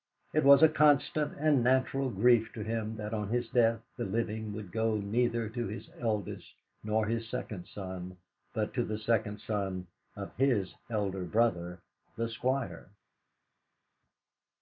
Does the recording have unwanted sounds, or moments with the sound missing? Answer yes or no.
no